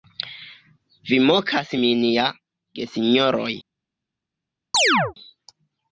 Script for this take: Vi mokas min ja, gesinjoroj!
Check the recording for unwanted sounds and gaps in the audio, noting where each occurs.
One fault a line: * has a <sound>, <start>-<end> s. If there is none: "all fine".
* has a chirp, 4.7-5.1 s